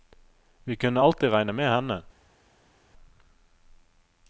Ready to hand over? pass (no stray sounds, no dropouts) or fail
pass